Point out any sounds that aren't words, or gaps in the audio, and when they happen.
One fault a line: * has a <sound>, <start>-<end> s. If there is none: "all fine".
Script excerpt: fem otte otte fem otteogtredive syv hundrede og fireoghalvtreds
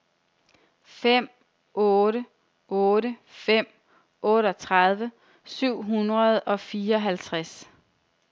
all fine